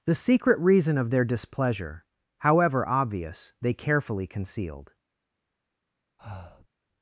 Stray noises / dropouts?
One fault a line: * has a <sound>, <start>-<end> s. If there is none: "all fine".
* has a breath, 6.2-6.7 s